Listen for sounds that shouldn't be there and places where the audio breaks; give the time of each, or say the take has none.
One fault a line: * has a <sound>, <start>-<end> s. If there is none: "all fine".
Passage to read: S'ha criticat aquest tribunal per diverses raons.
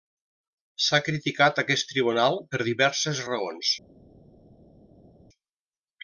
all fine